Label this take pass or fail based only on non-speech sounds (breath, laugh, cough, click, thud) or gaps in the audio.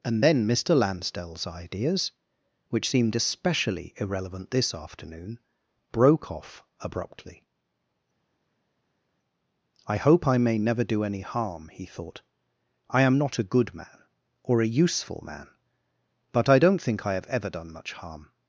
pass